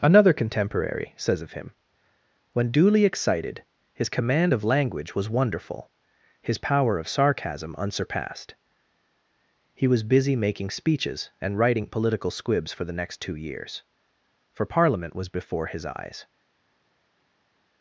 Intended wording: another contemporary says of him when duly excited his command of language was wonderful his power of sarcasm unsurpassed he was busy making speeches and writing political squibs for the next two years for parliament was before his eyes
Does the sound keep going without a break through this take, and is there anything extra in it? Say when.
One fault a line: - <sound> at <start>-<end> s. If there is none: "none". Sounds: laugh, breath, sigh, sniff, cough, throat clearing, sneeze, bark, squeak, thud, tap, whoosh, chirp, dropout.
none